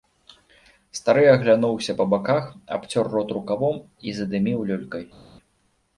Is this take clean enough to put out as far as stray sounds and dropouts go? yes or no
yes